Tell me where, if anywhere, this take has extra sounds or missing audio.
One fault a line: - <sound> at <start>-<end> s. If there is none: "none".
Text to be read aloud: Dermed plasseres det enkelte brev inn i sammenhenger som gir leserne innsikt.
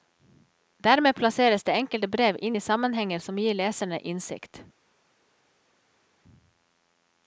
none